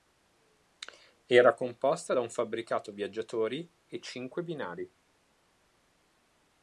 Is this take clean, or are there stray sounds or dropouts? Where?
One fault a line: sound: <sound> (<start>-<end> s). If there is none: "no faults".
no faults